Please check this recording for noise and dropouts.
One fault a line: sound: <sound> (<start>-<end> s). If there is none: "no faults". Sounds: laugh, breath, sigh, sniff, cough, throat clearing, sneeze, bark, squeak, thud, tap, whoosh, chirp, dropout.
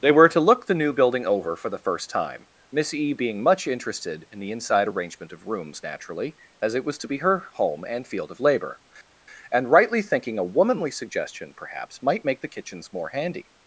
no faults